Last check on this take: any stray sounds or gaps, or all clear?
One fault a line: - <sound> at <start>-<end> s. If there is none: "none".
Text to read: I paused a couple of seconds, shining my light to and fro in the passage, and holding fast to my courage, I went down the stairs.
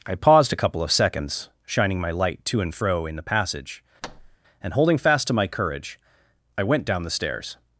- thud at 4.0-4.4 s